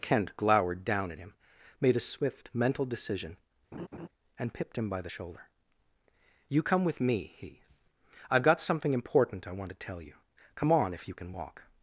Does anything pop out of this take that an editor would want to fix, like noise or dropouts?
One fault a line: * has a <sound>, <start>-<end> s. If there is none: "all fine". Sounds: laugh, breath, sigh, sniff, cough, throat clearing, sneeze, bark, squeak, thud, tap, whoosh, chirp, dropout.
* has a laugh, 3.7-4.1 s